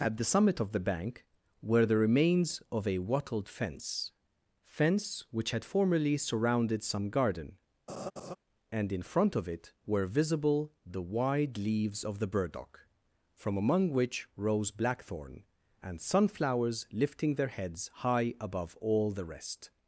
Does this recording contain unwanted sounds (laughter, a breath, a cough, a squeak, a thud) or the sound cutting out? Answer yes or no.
yes